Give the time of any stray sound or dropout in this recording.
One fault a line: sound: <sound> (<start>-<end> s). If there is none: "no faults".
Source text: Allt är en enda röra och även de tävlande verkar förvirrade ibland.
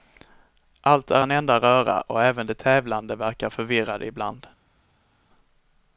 no faults